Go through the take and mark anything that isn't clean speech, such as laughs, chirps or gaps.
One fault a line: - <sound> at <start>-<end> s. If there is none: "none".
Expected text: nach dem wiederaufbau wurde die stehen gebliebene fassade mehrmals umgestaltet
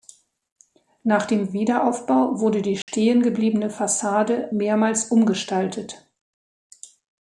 - dropout at 2.8-2.9 s